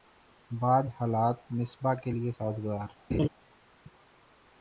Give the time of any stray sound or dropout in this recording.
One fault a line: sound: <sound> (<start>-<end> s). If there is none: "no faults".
sound: laugh (3.1-3.3 s)